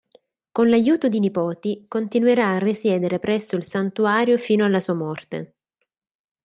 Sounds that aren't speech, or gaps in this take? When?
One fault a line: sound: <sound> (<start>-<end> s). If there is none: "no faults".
no faults